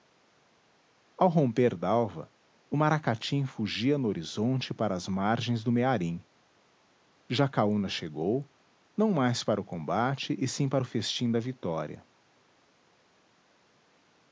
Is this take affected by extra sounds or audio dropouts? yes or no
no